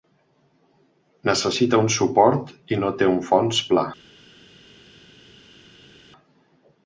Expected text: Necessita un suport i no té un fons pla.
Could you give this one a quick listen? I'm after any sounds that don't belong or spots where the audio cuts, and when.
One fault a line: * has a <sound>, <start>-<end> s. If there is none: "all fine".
all fine